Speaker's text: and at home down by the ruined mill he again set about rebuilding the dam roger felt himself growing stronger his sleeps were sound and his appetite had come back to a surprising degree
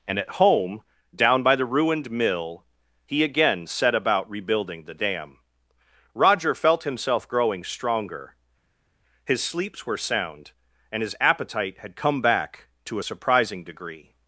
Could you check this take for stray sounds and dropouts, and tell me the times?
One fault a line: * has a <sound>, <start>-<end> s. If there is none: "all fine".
all fine